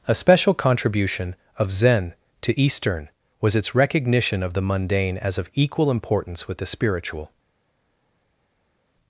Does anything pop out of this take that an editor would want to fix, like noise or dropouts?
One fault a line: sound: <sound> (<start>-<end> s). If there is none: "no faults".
no faults